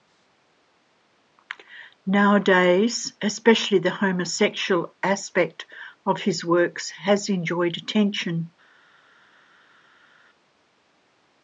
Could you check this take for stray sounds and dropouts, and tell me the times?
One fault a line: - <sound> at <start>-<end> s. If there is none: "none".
none